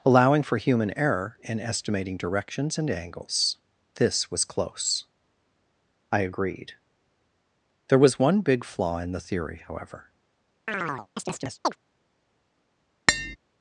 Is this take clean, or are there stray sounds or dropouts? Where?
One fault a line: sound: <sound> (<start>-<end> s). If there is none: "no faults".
sound: chirp (10.7-11.8 s)
sound: tap (13.1-13.4 s)